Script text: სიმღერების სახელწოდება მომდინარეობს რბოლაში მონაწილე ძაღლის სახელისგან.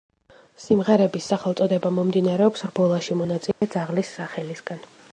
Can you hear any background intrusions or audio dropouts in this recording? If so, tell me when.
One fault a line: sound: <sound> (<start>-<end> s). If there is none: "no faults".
sound: dropout (3.5-3.6 s)